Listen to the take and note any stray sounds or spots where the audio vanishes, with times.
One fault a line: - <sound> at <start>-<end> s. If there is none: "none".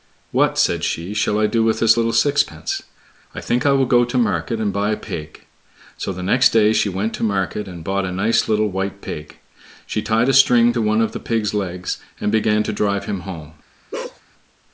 - bark at 13.9-14.2 s